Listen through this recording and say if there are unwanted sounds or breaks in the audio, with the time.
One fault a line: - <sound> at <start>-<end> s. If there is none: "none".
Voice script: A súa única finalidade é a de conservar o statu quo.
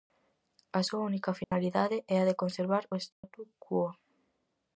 - dropout at 1.4-1.5 s
- dropout at 3.1-3.2 s